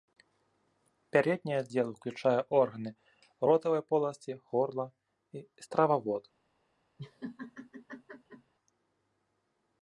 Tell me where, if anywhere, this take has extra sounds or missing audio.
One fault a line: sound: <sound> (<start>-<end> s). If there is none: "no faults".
sound: laugh (7.0-8.5 s)